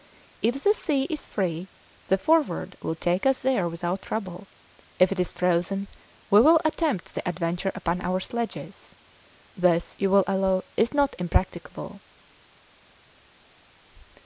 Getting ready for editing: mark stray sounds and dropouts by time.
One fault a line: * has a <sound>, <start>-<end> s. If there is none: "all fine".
all fine